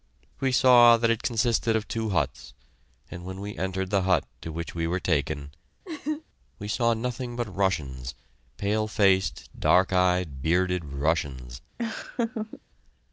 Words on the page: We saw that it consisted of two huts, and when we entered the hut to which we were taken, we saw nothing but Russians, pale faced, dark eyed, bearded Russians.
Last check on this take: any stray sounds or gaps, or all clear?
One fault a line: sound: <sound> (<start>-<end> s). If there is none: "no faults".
sound: laugh (5.8-6.2 s)
sound: laugh (11.8-12.6 s)